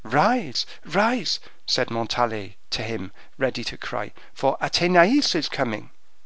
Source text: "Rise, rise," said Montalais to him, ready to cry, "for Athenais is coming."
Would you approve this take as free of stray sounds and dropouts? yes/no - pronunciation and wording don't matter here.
yes